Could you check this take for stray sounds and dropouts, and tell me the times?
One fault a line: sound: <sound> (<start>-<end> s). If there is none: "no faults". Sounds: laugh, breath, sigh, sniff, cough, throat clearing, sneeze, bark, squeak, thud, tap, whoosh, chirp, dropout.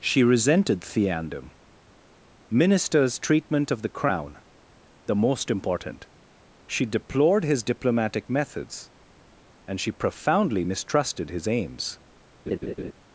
sound: laugh (12.5-12.9 s)